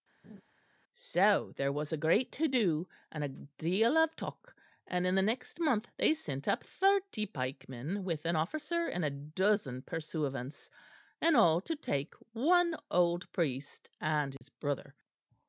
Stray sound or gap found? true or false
true